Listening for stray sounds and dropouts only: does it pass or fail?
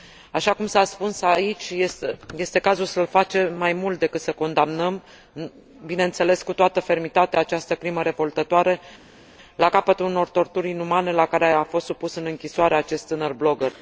pass